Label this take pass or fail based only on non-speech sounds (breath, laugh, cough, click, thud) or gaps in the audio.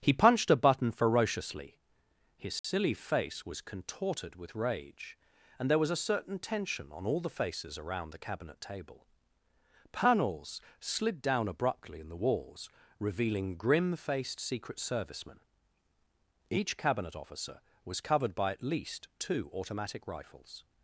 fail